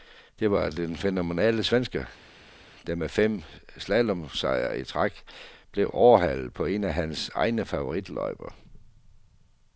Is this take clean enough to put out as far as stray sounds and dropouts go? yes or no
yes